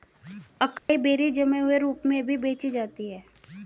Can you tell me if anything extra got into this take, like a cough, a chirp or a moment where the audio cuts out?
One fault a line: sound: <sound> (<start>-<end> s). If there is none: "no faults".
sound: dropout (0.8-0.9 s)